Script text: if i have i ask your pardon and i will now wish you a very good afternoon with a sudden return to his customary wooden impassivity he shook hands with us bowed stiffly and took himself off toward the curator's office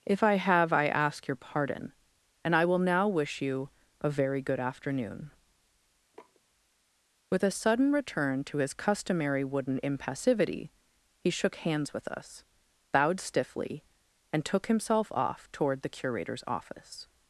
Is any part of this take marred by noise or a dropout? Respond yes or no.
yes